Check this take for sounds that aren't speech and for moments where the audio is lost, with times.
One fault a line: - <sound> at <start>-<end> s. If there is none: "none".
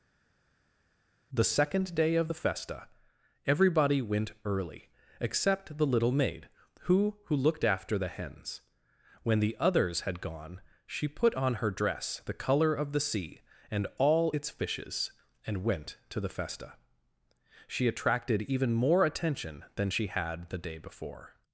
none